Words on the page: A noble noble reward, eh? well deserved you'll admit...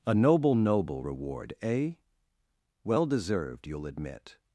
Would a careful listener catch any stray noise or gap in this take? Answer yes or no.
no